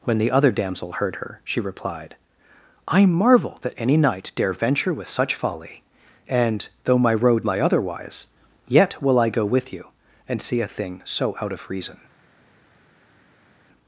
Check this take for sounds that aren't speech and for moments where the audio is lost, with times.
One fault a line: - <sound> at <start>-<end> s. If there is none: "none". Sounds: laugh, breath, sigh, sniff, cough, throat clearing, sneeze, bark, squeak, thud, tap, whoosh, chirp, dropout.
none